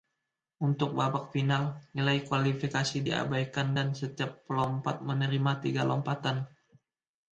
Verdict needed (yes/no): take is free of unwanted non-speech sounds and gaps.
yes